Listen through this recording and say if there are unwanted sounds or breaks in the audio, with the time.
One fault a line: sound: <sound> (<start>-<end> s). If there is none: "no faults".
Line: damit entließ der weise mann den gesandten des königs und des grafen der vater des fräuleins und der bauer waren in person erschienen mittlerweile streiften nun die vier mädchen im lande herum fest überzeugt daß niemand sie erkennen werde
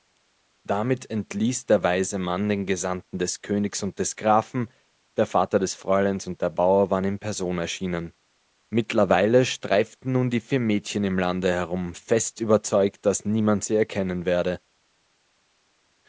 no faults